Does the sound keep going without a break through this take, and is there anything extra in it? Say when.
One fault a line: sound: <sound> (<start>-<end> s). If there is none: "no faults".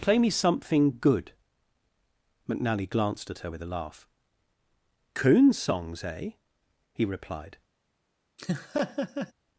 sound: laugh (8.4-9.3 s)